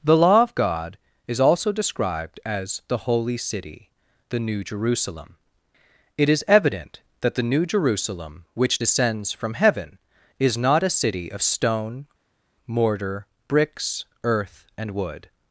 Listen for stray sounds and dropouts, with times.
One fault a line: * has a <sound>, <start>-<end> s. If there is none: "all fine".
all fine